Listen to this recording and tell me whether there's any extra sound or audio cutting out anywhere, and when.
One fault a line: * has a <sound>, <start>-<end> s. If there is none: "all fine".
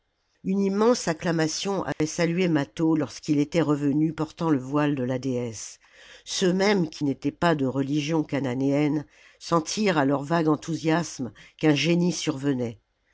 * has a dropout, 1.9-2.0 s